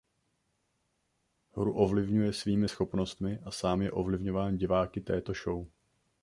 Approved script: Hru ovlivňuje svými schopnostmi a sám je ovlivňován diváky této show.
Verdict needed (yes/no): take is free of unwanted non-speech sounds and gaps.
yes